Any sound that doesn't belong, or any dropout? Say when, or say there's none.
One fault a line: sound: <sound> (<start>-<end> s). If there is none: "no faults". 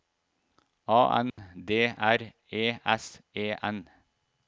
sound: dropout (1.3-1.4 s)